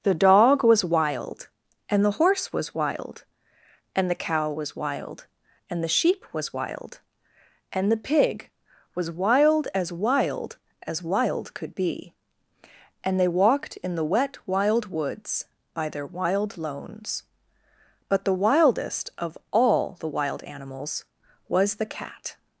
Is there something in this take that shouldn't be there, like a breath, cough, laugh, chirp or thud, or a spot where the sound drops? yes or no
no